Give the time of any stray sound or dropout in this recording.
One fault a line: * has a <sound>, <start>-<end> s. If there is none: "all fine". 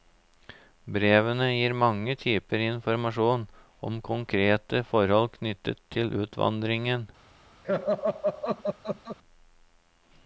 * has a laugh, 7.6-9.2 s